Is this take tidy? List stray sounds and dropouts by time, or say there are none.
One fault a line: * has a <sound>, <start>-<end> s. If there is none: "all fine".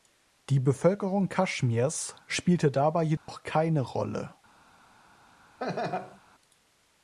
* has a dropout, 3.2-3.3 s
* has a laugh, 5.6-6.2 s